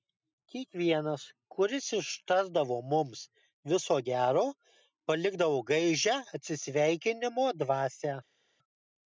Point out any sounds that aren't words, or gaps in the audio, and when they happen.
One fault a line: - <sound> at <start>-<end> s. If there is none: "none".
none